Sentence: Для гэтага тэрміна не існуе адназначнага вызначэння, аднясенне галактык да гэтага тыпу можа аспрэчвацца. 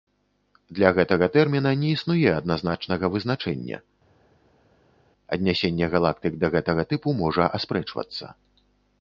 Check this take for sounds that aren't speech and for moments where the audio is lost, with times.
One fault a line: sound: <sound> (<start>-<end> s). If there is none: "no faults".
no faults